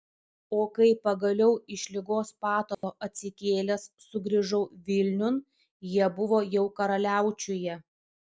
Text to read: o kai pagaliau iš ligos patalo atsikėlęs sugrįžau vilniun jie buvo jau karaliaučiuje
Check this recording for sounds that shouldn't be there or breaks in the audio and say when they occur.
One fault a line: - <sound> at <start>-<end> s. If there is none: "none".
- dropout at 2.7-2.8 s